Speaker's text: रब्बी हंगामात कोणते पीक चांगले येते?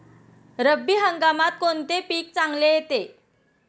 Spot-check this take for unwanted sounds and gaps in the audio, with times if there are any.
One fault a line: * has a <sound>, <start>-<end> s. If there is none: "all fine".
all fine